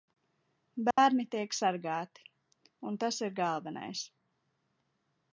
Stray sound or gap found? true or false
true